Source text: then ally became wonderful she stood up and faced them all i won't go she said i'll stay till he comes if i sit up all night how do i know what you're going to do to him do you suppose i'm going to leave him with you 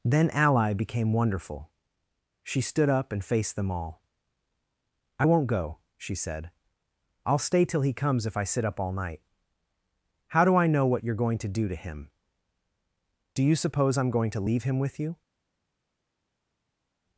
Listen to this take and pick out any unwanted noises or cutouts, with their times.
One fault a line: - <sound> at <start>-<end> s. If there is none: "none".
none